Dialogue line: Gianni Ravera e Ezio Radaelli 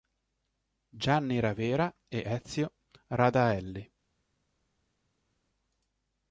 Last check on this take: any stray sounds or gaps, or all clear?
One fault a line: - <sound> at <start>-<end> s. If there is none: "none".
none